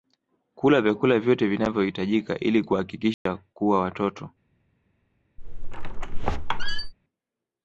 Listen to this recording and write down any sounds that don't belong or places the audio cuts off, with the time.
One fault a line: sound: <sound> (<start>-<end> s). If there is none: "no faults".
sound: dropout (3.1-3.3 s)
sound: squeak (5.4-6.9 s)